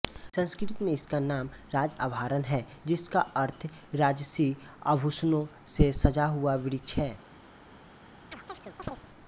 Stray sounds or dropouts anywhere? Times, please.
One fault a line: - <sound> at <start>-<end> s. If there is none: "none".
- chirp at 8.3-9.1 s